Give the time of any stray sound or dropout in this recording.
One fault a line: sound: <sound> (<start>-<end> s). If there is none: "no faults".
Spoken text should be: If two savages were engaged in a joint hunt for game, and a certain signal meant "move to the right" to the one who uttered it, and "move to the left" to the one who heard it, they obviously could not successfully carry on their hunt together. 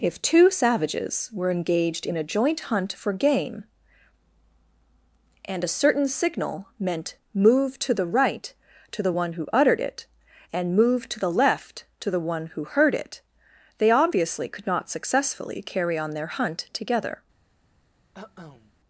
sound: cough (18.1-18.7 s)